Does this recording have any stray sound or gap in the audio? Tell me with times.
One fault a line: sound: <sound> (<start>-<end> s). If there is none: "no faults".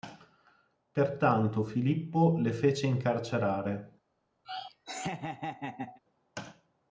sound: laugh (4.4-6.0 s)